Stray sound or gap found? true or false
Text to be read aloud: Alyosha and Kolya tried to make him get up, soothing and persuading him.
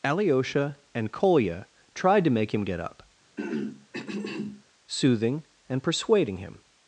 true